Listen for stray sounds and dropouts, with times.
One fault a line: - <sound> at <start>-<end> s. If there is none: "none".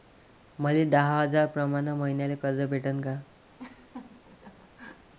- laugh at 3.6-5.1 s